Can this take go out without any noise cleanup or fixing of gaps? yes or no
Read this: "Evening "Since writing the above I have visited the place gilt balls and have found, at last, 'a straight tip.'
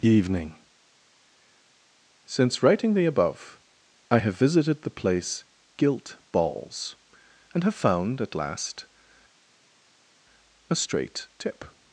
yes